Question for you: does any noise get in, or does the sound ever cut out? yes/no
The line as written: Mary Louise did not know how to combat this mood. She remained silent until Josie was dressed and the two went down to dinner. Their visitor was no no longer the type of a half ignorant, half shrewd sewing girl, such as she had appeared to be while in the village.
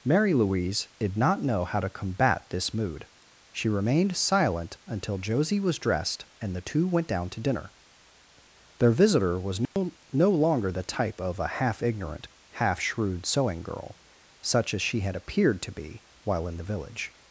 yes